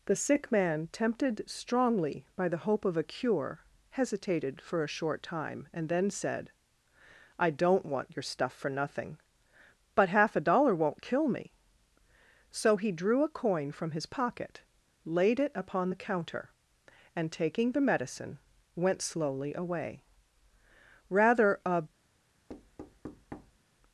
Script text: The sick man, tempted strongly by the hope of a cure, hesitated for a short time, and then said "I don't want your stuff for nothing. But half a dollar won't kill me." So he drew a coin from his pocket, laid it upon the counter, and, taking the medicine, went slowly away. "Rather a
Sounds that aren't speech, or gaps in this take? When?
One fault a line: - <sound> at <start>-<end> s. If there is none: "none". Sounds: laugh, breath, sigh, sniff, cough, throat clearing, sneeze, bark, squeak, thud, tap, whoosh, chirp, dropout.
- thud at 22.5-23.6 s